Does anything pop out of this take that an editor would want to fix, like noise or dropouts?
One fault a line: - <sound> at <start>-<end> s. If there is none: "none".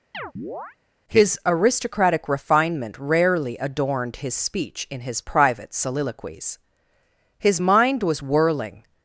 - chirp at 0.1-0.8 s